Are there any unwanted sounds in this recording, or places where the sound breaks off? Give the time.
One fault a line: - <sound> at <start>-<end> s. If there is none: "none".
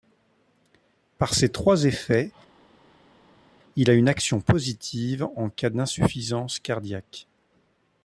none